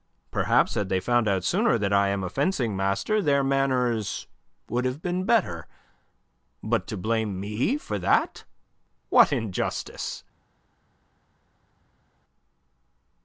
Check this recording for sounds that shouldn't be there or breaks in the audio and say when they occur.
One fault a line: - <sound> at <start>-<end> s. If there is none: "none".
none